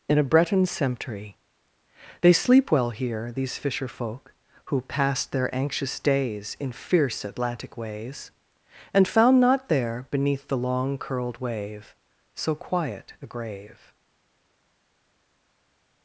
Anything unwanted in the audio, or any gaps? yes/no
no